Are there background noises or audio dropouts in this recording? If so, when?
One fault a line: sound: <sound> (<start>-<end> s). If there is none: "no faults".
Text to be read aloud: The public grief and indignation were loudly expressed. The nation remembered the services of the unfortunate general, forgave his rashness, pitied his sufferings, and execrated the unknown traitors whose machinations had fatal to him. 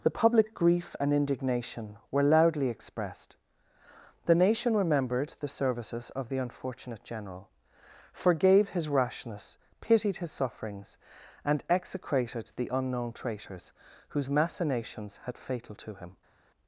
no faults